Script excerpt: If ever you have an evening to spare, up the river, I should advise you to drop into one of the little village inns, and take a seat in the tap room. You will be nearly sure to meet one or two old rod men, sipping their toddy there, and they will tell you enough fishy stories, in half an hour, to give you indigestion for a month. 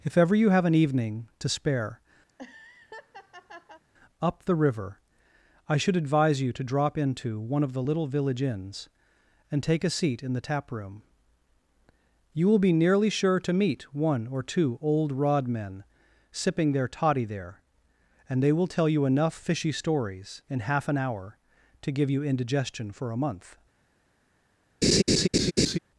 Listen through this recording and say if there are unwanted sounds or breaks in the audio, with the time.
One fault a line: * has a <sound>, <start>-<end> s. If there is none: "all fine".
* has a laugh, 2.3-3.8 s
* has a laugh, 24.8-25.8 s